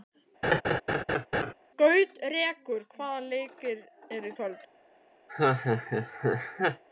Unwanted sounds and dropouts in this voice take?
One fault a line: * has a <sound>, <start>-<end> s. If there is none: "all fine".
* has a laugh, 0.4-1.5 s
* has a laugh, 5.3-6.8 s